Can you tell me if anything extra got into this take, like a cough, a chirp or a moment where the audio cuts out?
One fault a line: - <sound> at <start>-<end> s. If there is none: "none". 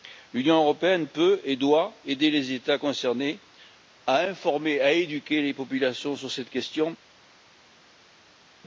none